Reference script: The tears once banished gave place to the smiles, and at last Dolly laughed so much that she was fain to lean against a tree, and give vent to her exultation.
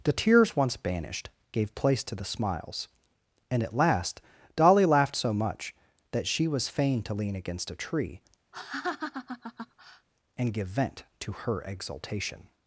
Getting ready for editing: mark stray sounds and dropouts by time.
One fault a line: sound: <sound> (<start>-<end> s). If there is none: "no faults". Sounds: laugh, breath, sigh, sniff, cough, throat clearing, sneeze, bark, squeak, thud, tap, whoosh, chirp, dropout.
sound: laugh (8.5-10.1 s)